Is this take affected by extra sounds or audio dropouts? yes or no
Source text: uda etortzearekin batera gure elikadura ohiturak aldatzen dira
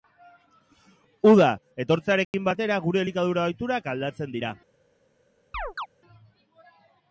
yes